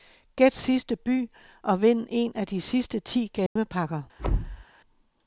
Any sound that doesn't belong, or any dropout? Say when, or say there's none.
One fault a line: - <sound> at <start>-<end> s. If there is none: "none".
- dropout at 3.5-3.6 s
- thud at 4.2-4.6 s